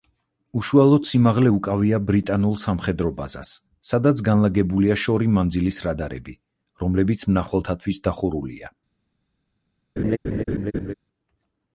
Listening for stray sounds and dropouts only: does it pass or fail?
fail